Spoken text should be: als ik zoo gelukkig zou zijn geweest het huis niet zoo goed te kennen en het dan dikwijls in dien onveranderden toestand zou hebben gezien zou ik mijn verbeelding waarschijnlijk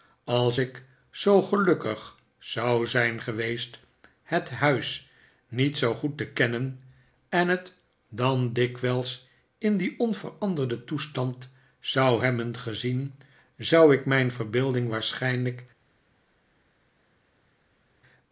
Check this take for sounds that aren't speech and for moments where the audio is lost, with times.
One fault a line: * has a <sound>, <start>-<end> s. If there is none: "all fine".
all fine